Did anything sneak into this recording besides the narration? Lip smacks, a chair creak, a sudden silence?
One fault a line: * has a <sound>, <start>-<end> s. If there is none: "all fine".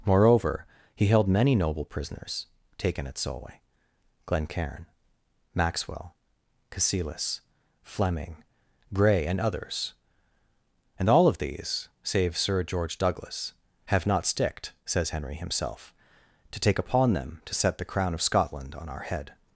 all fine